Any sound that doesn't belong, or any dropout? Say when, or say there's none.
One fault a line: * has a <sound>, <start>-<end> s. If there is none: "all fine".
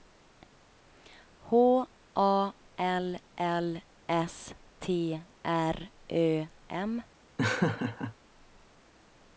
* has a laugh, 7.4-8.1 s